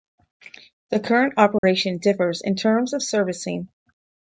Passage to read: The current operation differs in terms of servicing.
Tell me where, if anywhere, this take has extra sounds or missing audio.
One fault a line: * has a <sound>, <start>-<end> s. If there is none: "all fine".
* has a dropout, 1.6-1.6 s